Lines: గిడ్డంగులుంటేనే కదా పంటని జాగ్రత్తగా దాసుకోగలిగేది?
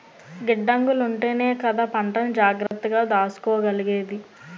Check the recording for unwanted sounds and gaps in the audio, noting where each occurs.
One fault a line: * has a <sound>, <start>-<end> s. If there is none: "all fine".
* has a dropout, 2.7-2.7 s